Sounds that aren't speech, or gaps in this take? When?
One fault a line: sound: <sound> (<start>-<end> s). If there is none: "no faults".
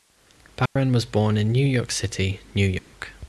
sound: dropout (0.7-0.8 s)
sound: dropout (2.8-2.9 s)